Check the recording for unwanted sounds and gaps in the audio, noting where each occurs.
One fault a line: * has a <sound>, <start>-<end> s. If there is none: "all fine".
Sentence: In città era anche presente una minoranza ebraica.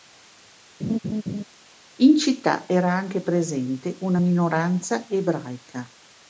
* has a laugh, 0.8-1.4 s